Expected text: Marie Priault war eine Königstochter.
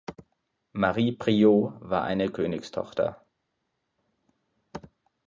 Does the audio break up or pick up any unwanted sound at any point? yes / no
no